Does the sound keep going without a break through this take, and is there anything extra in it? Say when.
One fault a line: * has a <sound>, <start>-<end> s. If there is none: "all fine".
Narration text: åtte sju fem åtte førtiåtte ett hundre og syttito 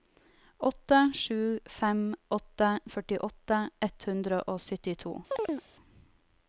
* has a chirp, 5.3-5.7 s